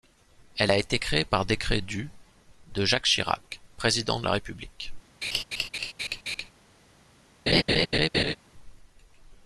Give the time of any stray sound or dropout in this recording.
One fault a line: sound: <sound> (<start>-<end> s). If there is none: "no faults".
sound: laugh (5.2-6.5 s)
sound: laugh (7.5-8.4 s)